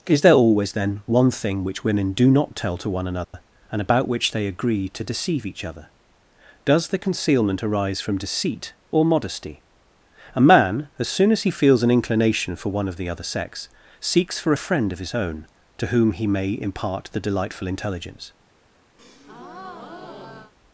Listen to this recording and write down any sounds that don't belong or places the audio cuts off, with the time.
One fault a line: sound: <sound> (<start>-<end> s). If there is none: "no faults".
sound: dropout (3.2-3.3 s)
sound: breath (19.0-20.5 s)